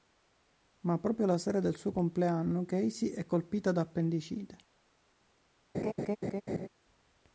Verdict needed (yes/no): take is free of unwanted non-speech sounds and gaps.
no